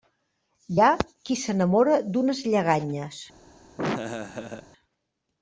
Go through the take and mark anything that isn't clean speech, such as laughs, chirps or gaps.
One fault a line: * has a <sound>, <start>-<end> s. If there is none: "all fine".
* has a laugh, 3.8-4.7 s